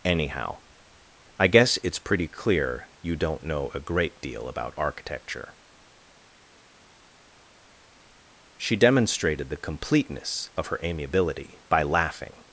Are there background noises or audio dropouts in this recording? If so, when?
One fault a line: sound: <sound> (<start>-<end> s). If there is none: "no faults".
no faults